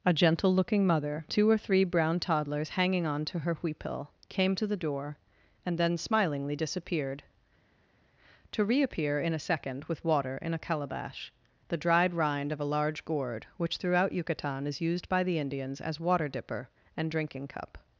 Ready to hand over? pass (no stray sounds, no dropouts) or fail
pass